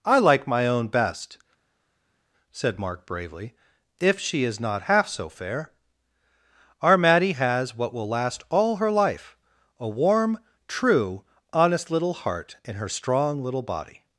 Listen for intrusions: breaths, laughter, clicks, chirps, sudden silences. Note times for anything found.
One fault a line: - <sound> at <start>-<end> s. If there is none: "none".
none